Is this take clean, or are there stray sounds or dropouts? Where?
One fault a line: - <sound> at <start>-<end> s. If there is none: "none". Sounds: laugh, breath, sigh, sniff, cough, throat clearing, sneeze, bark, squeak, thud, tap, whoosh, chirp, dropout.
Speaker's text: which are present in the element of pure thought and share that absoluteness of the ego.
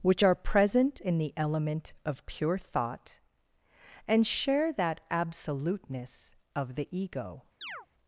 - chirp at 7.6-7.9 s